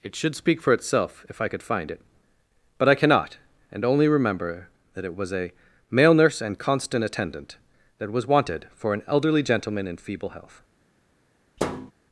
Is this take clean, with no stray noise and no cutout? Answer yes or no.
no